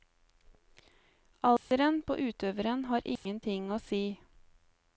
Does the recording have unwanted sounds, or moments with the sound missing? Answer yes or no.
yes